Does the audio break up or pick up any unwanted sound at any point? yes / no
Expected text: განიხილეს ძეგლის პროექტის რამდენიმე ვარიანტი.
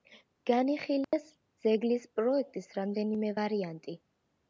yes